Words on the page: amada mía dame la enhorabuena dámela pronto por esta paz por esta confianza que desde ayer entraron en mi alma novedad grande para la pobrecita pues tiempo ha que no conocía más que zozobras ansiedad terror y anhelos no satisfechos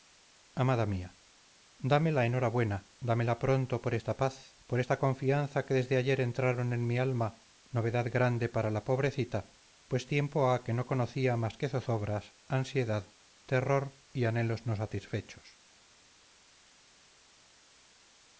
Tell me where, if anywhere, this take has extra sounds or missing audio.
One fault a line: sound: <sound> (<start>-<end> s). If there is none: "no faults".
no faults